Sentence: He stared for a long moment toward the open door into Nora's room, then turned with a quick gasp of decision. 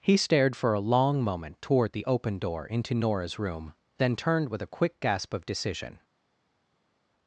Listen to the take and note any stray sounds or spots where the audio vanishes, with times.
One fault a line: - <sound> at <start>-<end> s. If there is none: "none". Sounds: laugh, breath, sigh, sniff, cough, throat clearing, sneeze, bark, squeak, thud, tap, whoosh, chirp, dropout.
none